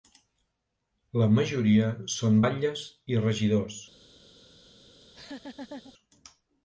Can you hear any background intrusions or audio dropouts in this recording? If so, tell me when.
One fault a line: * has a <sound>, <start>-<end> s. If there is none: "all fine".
* has a laugh, 5.0-5.9 s